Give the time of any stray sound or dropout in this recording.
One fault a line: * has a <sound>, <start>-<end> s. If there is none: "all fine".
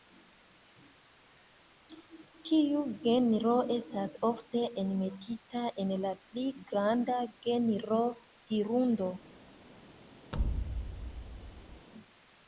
* has a thud, 10.3-11.9 s